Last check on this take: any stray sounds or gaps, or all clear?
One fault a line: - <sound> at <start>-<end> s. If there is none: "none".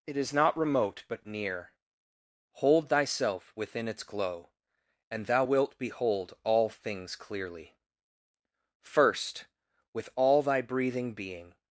none